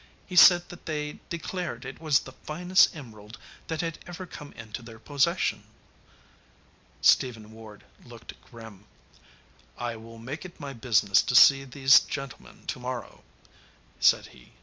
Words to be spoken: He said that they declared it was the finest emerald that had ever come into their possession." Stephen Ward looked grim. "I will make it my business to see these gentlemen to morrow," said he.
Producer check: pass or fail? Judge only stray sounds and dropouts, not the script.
pass